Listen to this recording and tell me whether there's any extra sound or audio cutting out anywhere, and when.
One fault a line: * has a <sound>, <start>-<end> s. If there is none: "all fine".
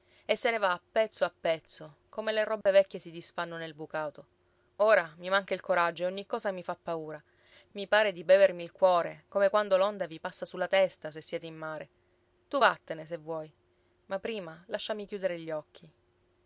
* has a dropout, 2.6-2.7 s